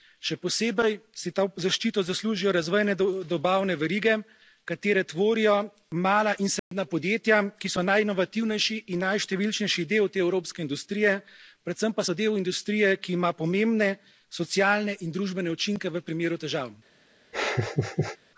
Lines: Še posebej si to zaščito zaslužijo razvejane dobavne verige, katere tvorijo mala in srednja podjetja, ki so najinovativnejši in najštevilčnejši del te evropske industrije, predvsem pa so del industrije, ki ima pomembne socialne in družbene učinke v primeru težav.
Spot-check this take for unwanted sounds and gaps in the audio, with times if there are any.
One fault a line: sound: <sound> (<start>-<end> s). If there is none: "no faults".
sound: dropout (6.6-6.7 s)
sound: laugh (17.3-18.2 s)